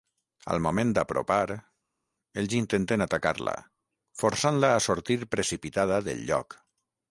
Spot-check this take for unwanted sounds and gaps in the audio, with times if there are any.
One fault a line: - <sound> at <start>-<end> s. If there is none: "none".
none